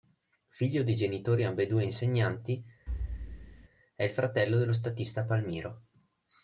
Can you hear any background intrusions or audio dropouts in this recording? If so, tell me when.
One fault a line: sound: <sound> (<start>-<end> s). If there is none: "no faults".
sound: thud (2.9-3.7 s)